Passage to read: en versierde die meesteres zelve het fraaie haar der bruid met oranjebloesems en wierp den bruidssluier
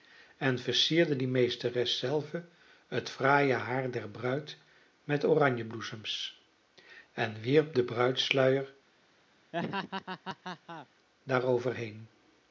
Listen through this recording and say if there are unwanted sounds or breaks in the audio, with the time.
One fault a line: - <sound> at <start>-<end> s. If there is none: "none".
- laugh at 9.5-10.9 s